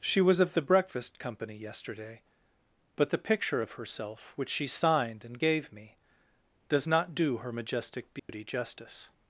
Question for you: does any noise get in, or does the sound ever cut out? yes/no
yes